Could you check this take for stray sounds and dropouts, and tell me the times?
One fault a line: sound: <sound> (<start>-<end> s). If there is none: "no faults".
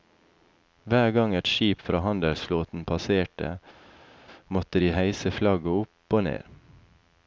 no faults